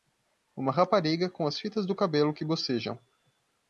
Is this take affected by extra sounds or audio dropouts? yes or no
no